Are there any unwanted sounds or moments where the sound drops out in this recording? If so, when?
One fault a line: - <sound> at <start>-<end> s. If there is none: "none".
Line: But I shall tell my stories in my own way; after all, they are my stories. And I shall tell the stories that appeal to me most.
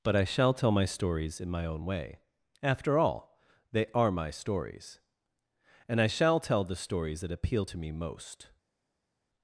none